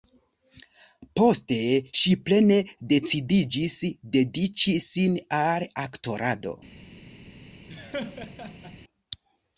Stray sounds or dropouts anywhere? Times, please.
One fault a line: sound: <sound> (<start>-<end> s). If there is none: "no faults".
sound: laugh (7.7-8.8 s)